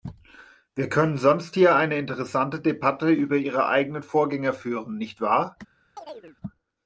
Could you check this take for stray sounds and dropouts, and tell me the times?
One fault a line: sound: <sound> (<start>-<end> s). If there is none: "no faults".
sound: chirp (6.0-6.4 s)